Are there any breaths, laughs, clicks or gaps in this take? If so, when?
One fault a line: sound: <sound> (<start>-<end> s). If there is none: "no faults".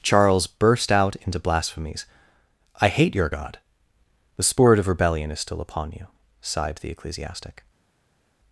no faults